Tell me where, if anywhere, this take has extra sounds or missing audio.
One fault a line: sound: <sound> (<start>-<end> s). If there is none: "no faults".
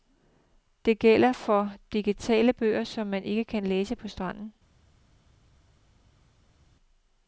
no faults